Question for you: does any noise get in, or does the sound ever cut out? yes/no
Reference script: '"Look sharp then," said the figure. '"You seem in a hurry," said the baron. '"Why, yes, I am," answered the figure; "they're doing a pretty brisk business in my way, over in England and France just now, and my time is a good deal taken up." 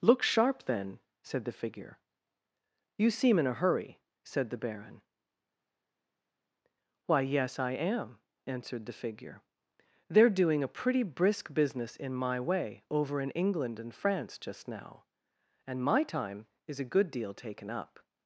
no